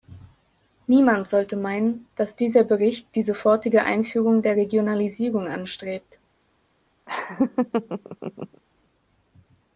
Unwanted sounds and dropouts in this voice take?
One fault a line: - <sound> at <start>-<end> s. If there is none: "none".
- laugh at 7.1-8.6 s